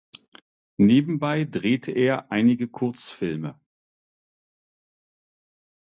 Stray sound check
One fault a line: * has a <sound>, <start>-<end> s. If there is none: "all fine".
all fine